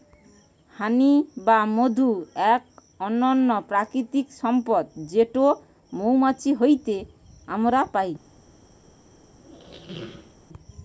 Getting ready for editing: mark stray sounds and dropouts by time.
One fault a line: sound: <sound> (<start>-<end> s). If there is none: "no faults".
sound: squeak (9.4-10.4 s)